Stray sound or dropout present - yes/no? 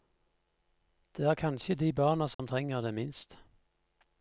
yes